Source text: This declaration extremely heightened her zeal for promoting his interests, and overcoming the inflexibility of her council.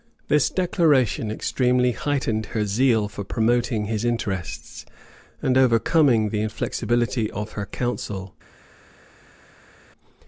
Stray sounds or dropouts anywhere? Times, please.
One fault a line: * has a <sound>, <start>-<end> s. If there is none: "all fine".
all fine